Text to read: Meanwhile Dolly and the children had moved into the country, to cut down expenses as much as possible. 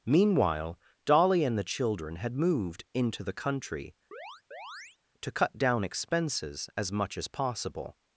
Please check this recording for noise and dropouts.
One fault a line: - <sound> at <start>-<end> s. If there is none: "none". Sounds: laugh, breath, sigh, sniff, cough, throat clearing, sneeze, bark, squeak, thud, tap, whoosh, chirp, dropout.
- chirp at 4.1-5.0 s